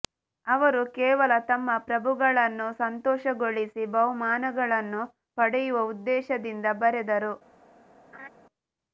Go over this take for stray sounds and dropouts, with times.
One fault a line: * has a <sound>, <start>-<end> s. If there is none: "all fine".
* has a laugh, 8.1-8.3 s